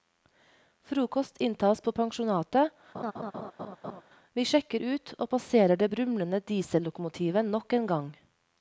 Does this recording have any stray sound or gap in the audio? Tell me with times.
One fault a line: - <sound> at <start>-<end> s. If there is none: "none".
- laugh at 2.9-4.0 s